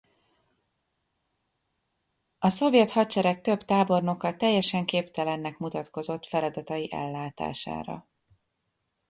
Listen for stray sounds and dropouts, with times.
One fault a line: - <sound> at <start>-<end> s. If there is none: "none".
none